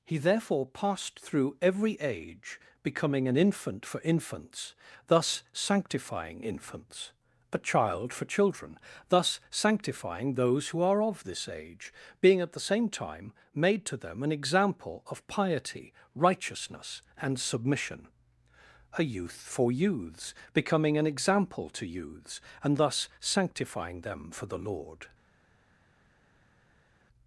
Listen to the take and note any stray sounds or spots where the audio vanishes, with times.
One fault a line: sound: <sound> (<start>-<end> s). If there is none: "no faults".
no faults